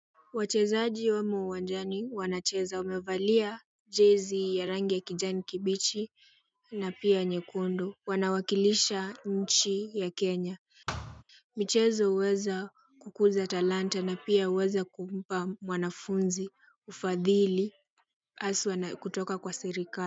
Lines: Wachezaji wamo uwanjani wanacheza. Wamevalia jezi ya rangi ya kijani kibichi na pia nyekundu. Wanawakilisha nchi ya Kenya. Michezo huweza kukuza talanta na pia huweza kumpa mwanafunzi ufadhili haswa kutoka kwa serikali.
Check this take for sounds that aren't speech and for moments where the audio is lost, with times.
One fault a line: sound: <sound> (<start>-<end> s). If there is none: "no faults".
sound: thud (10.9-11.2 s)